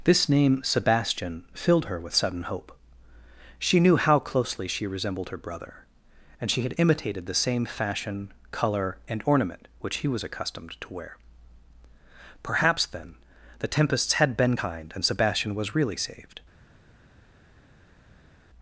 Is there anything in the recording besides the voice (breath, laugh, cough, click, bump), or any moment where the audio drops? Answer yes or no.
no